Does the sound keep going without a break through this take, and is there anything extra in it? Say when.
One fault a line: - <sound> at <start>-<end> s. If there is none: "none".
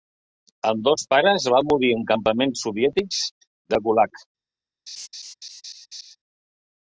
- laugh at 4.9-6.2 s